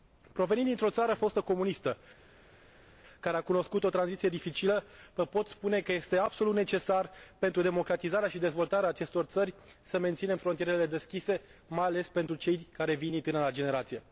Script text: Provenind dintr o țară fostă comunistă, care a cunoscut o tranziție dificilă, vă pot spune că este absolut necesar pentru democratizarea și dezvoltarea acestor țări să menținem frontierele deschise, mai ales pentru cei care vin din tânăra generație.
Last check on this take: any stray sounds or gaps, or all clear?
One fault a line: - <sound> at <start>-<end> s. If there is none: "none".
none